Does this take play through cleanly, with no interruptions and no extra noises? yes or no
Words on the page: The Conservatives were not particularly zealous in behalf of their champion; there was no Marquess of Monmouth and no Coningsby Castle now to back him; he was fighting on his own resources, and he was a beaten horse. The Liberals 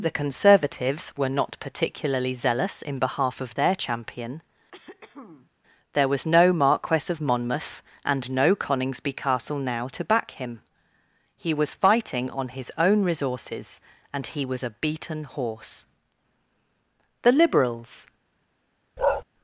no